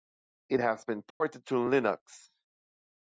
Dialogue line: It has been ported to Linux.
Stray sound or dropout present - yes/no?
yes